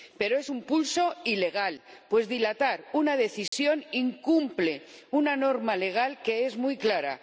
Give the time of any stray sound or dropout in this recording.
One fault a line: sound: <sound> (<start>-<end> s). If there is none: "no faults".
sound: dropout (3.5-3.5 s)